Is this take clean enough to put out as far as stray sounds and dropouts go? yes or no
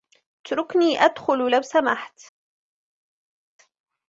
yes